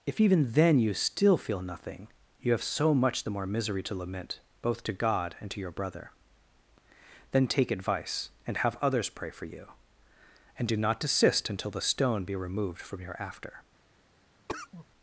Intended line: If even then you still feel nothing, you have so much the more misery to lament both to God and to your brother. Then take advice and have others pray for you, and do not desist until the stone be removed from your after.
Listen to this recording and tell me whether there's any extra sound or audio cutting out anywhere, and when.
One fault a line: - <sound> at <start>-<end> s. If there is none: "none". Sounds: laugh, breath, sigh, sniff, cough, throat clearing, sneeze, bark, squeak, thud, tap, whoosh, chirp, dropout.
- cough at 14.5-14.9 s